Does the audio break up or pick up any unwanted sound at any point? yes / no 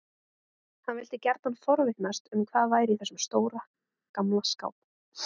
no